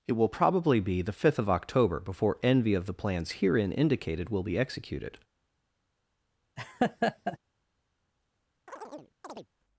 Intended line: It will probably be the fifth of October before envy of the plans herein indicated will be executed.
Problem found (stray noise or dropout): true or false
true